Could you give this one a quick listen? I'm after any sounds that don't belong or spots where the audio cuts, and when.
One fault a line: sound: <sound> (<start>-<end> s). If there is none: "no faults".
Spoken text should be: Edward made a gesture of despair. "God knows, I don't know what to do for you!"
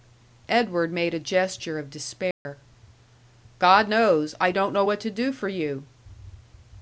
sound: dropout (2.3-2.5 s)